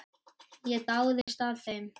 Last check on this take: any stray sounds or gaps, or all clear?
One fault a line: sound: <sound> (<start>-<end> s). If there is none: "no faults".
sound: dropout (1.2-1.3 s)